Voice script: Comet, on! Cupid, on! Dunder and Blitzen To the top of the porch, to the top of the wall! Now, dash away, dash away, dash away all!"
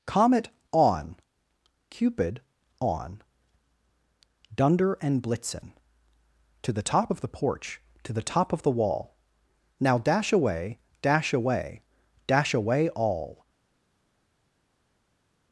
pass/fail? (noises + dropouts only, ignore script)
pass